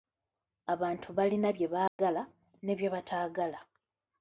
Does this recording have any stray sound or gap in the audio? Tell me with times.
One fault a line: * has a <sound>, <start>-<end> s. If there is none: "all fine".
* has a dropout, 1.9-2.0 s